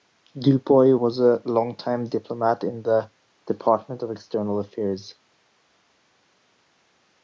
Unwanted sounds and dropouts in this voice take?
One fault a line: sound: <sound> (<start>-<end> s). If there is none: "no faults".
no faults